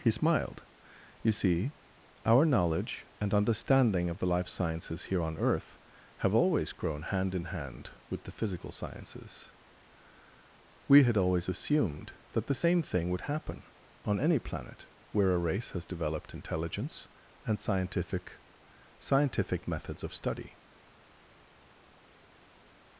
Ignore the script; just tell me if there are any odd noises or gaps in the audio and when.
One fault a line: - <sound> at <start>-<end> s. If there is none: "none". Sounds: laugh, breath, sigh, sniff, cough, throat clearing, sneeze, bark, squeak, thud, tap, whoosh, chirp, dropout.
none